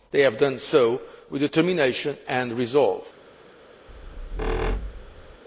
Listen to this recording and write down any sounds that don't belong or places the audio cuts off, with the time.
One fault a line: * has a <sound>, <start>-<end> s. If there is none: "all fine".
* has a squeak, 3.9-5.4 s